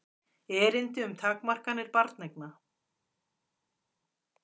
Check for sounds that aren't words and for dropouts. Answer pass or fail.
pass